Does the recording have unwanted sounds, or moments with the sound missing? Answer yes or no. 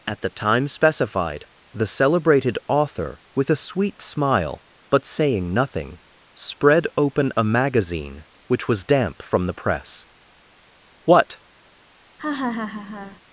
yes